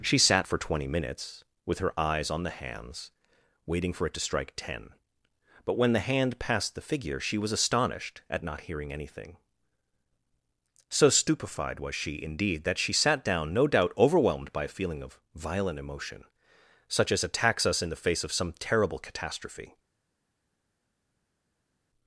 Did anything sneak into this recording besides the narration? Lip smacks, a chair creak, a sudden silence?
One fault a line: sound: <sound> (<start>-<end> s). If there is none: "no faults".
no faults